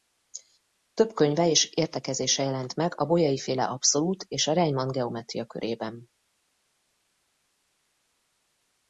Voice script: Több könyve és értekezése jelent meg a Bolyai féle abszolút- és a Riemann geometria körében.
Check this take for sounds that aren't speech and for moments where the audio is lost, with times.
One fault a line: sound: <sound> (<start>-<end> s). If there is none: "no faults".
no faults